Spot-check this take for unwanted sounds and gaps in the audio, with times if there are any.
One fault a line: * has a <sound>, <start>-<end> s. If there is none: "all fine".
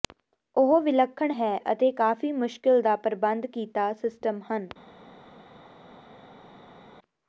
all fine